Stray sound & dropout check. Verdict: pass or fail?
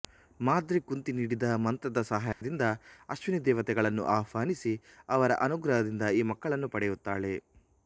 fail